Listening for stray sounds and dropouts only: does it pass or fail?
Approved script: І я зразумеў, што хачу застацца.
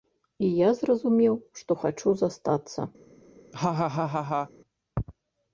fail